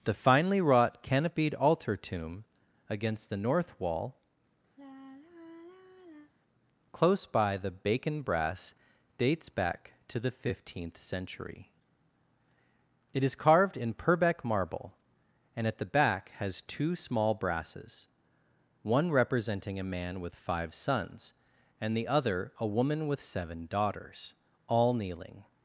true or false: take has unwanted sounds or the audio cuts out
true